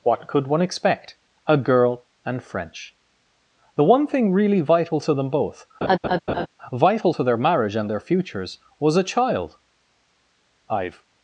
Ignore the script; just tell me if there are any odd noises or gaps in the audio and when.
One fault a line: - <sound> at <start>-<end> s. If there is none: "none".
- laugh at 5.8-6.5 s